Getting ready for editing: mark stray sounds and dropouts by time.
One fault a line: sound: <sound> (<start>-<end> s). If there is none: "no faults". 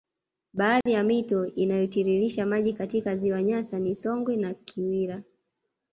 sound: dropout (0.8-0.9 s)